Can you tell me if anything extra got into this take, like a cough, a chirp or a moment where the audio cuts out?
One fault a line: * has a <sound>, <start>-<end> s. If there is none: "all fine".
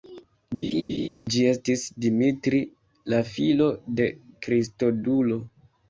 * has a laugh, 0.6-1.1 s